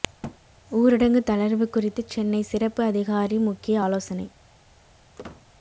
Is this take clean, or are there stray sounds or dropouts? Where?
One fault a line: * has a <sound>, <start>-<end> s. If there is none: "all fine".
* has a thud, 0.2-0.4 s
* has a squeak, 5.2-5.5 s